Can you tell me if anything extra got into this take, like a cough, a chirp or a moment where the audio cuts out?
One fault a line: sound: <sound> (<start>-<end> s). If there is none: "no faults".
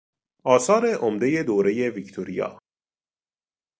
no faults